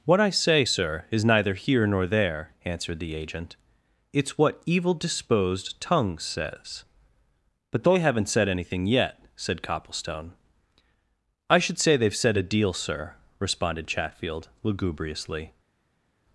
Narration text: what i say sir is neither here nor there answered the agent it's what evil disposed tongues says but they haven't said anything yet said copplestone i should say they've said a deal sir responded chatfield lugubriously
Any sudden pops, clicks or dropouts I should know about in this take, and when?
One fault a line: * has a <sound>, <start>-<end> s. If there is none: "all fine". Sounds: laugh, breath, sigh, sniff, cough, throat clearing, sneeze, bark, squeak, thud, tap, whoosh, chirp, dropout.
all fine